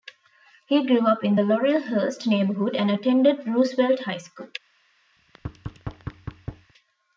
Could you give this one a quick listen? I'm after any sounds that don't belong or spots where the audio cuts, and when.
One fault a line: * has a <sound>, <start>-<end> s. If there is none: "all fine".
* has a thud, 5.2-6.7 s